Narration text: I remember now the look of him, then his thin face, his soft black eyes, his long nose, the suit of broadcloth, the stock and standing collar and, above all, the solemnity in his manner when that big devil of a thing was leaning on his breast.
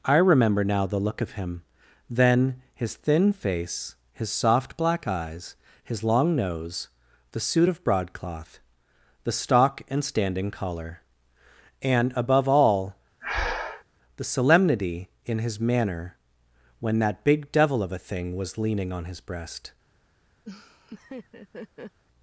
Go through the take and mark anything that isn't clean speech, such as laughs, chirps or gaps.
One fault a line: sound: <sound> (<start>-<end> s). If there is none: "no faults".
sound: breath (13.2-13.8 s)
sound: laugh (20.4-22.0 s)